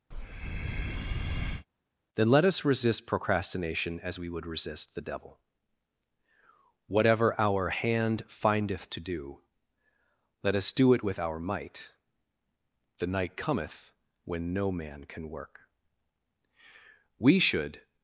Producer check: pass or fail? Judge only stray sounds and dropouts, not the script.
fail